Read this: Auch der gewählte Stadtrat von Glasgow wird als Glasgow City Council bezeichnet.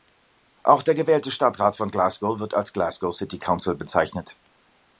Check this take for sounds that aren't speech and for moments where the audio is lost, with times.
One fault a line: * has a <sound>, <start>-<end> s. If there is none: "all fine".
all fine